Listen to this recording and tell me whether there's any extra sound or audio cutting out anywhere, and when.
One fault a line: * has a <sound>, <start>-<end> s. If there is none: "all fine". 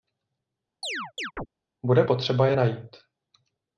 * has a chirp, 0.8-1.5 s